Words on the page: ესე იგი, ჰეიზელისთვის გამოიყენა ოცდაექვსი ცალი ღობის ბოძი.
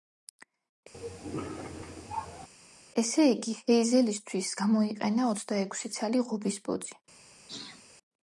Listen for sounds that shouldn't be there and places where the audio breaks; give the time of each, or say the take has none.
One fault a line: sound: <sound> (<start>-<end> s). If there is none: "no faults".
sound: cough (0.9-2.5 s)
sound: sneeze (7.5-7.8 s)